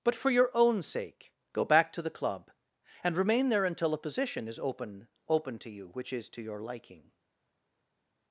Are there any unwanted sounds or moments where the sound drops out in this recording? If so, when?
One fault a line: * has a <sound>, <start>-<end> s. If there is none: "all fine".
all fine